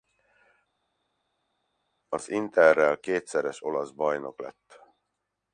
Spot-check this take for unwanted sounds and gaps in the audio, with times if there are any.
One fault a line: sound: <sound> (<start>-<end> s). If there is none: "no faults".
no faults